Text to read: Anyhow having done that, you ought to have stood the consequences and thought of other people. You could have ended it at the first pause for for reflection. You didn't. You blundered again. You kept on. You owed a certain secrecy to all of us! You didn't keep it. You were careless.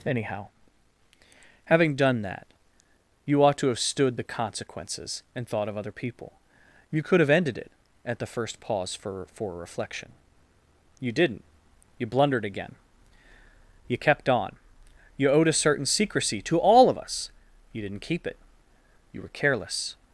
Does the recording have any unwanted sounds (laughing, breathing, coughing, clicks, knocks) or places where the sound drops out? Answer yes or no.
no